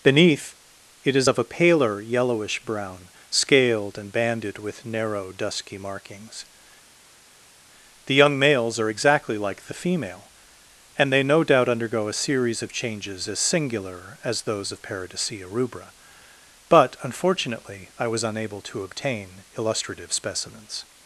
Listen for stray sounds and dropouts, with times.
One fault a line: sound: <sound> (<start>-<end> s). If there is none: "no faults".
no faults